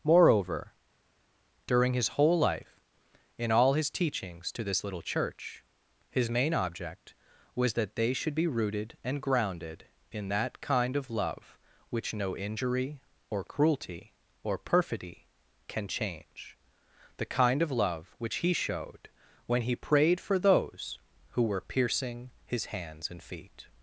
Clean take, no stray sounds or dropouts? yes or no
yes